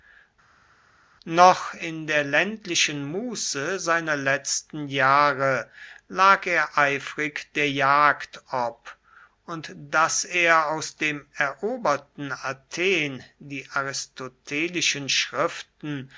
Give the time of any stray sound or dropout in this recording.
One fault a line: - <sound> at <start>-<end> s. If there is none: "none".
none